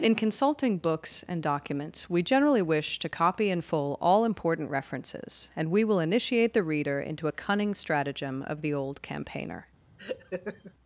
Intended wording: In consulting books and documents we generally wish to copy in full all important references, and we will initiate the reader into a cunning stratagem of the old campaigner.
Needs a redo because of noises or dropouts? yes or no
yes